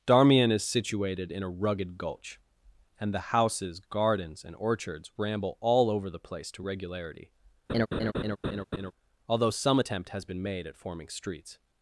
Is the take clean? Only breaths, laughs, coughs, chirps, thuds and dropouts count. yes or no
no